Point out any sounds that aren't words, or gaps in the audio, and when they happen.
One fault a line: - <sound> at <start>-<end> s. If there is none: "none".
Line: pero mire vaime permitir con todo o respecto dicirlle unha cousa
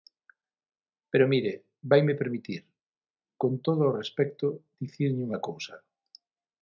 none